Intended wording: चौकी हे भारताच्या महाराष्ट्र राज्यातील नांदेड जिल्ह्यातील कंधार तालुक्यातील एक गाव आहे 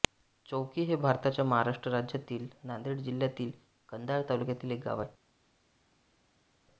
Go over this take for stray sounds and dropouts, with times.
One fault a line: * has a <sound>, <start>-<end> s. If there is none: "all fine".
all fine